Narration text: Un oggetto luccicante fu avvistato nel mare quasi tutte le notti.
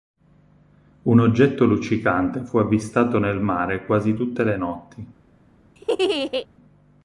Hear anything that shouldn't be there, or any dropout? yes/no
yes